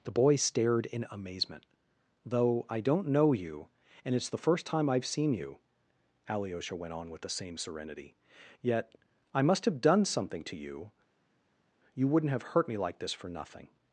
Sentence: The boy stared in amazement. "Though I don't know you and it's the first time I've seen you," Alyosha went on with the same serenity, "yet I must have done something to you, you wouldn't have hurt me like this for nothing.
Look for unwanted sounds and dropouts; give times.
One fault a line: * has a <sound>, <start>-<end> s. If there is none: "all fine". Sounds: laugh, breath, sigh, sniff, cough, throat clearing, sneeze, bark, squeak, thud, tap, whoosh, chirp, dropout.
all fine